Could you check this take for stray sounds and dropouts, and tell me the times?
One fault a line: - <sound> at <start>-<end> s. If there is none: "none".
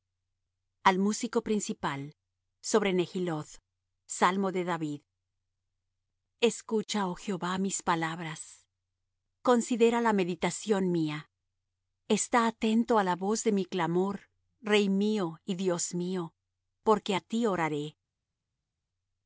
none